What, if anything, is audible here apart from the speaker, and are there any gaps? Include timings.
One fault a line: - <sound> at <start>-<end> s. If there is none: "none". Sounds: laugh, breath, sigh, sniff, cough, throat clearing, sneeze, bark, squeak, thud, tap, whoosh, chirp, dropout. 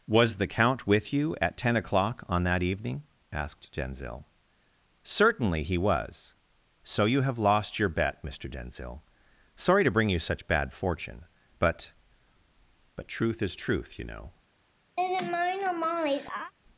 - laugh at 15.0-16.5 s